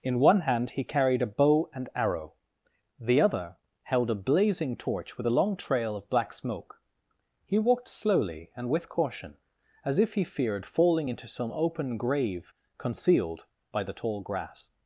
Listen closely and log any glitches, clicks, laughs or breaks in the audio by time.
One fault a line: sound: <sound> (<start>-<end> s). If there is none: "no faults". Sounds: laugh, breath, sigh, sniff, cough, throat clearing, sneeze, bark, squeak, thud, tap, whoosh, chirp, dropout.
no faults